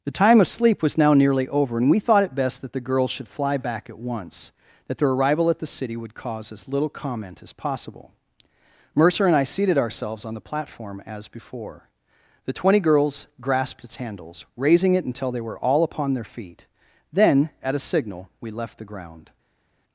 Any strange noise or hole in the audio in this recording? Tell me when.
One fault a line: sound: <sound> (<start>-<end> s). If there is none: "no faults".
no faults